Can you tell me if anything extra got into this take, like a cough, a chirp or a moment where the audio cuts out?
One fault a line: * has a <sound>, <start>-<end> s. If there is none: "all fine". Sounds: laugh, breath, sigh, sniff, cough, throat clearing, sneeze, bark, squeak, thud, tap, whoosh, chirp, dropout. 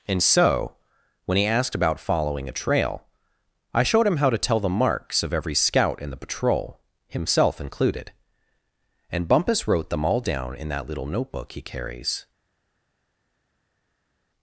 all fine